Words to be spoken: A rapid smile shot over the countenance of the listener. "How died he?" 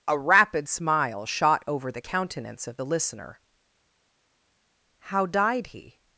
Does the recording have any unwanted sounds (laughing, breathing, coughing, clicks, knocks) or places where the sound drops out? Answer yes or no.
no